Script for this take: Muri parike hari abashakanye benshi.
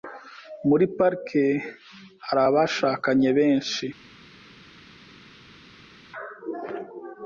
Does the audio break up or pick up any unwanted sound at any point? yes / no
no